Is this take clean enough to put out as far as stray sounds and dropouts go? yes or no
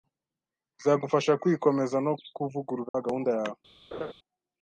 no